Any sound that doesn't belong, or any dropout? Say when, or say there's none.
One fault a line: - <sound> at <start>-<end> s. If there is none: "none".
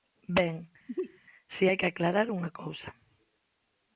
- sneeze at 0.9-1.2 s